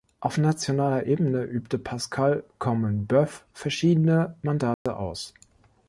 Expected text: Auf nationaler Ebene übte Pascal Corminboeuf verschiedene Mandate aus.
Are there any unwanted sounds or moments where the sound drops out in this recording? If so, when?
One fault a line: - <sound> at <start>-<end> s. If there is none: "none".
- dropout at 4.7-4.9 s